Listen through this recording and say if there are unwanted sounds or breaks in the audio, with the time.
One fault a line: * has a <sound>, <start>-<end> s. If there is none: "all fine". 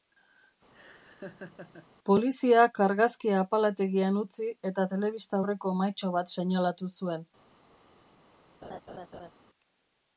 * has a laugh, 0.7-1.9 s
* has a laugh, 8.6-9.3 s